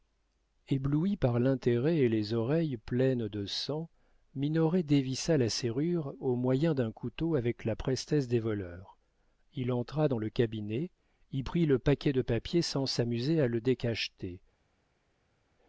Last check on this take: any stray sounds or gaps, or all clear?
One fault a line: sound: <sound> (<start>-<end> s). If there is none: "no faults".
no faults